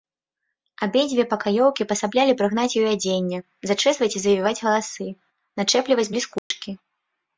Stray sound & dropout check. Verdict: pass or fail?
fail